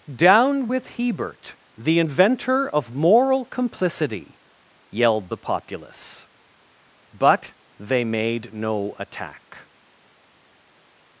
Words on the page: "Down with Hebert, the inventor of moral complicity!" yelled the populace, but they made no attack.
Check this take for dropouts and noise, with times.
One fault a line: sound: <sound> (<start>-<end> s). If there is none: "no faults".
no faults